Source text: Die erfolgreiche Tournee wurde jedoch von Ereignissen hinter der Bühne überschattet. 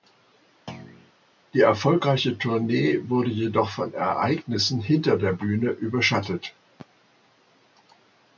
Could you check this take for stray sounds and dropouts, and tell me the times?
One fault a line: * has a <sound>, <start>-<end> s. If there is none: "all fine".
* has a thud, 0.7-1.1 s